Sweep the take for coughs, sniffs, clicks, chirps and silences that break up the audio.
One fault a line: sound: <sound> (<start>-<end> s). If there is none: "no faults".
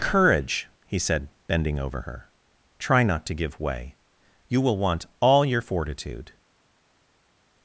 no faults